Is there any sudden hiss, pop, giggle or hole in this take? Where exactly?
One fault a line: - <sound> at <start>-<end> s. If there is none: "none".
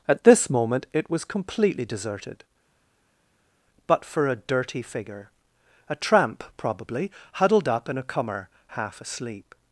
none